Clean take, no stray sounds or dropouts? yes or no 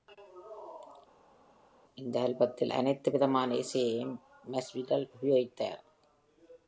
yes